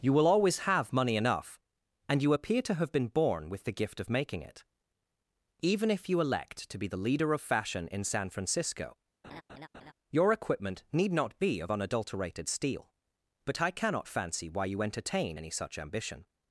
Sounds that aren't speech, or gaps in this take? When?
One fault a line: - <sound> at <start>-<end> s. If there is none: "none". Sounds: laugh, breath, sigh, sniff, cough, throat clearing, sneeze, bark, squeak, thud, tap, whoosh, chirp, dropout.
- laugh at 9.2-9.9 s